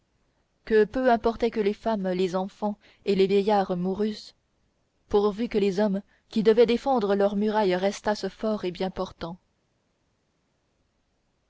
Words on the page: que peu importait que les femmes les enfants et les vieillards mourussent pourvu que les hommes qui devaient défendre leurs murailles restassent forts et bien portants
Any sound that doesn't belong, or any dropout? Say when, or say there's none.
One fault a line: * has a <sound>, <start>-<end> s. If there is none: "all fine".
all fine